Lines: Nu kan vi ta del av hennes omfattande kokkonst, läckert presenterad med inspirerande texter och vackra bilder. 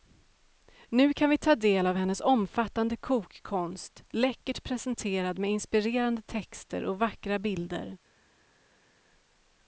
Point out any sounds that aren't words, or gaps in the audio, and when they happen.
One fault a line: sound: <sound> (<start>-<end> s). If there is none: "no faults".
no faults